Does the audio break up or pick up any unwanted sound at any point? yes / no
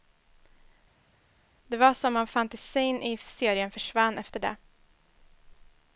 no